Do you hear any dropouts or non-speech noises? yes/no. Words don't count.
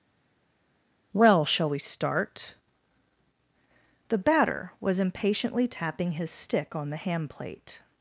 no